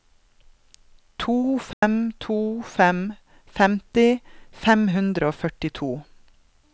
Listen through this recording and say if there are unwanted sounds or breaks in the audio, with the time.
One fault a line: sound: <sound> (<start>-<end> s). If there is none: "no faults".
sound: dropout (1.7-1.8 s)